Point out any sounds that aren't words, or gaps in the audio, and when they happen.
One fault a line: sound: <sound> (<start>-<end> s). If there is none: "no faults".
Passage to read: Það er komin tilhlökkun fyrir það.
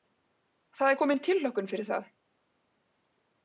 no faults